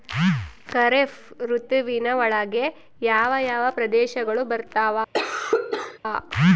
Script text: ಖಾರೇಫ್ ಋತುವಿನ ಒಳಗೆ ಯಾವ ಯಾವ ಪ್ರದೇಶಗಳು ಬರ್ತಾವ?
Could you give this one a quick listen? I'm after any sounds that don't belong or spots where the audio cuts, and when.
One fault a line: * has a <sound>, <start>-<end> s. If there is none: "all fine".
* has a cough, 5.1-6.0 s